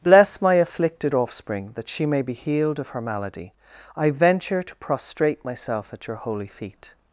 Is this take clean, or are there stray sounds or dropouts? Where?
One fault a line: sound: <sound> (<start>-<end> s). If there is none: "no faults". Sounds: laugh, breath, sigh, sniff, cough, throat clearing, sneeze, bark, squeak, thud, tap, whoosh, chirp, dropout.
no faults